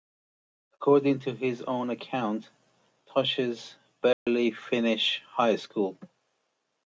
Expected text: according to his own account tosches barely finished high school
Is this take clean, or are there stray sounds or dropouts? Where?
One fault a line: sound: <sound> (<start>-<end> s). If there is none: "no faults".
sound: dropout (4.1-4.3 s)